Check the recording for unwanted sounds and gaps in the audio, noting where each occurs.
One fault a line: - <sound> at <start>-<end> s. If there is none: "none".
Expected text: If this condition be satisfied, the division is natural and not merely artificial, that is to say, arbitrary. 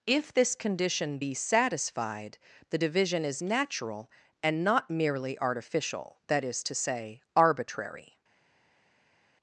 none